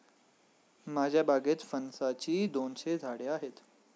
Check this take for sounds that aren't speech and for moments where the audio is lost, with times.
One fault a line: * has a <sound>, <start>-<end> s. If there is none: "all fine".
all fine